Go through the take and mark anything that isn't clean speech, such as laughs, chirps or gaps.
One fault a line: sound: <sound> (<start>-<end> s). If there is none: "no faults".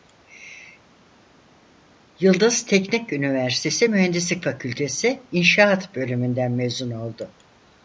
no faults